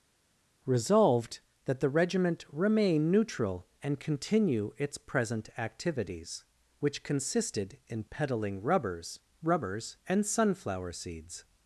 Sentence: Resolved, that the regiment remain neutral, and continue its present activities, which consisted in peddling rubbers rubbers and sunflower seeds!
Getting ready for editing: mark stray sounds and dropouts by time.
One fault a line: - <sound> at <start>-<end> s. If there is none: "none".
none